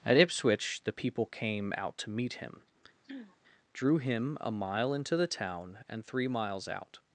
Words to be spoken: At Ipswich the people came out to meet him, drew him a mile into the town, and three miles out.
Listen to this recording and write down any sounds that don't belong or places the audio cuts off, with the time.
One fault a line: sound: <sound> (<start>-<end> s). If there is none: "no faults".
sound: throat clearing (3.0-3.4 s)